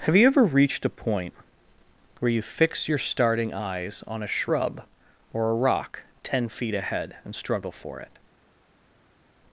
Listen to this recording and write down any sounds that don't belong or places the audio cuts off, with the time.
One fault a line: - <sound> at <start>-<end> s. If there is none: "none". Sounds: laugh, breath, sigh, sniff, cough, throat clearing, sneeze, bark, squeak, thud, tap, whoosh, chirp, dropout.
none